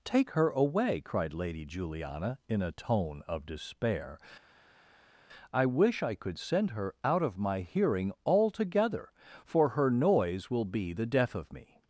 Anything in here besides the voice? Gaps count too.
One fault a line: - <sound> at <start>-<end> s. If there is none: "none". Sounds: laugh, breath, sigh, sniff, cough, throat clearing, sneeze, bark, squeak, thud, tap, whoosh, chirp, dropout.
none